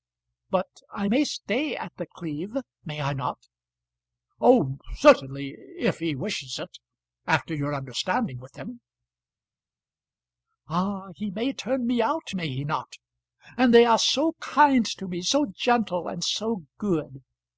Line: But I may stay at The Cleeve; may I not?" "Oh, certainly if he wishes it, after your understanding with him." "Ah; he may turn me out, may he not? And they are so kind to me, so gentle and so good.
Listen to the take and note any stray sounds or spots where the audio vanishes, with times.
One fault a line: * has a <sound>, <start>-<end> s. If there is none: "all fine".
all fine